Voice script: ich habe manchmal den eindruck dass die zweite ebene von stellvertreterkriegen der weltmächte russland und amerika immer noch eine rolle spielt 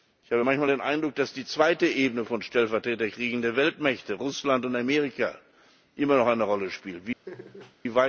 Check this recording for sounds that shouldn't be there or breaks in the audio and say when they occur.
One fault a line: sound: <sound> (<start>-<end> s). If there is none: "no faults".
sound: laugh (7.3-7.8 s)